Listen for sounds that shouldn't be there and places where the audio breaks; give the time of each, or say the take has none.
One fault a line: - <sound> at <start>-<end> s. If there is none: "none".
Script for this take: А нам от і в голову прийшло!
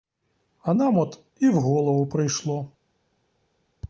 none